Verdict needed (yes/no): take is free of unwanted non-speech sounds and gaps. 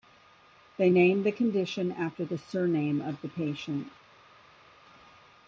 yes